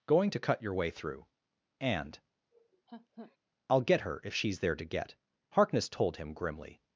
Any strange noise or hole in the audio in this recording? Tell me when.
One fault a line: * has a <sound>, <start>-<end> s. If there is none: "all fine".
* has a laugh, 2.5-3.4 s